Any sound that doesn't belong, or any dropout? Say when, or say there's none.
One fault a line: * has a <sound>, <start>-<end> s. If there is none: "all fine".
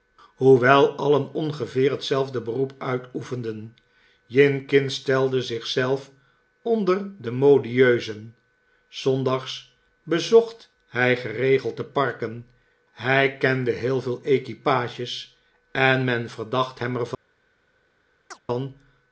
* has a chirp, 18.3-18.4 s